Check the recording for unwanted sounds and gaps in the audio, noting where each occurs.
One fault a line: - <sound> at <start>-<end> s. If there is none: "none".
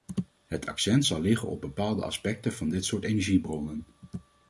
none